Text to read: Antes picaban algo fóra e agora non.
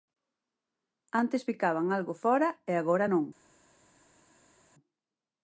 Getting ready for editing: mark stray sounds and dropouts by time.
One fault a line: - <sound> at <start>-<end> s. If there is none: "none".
none